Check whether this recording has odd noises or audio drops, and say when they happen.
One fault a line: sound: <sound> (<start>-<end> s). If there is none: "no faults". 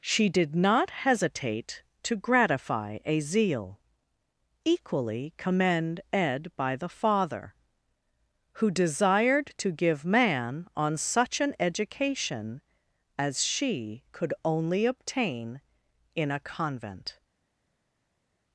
no faults